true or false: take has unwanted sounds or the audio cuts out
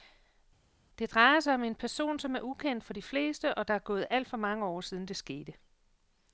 false